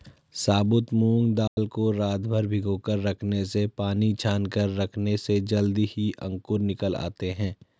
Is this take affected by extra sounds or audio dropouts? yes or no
yes